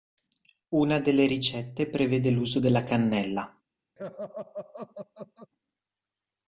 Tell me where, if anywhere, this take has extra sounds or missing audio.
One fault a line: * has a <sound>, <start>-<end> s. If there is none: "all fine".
* has a laugh, 4.0-5.5 s